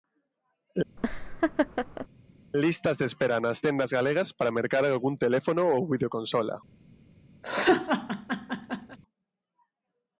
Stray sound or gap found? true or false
true